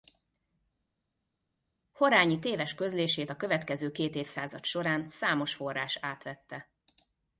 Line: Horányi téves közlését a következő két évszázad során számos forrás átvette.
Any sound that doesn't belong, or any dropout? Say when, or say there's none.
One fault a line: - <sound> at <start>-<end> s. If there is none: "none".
none